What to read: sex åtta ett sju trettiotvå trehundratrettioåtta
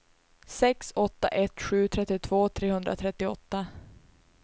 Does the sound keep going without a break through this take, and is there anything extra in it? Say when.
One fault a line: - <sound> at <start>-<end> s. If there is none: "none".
none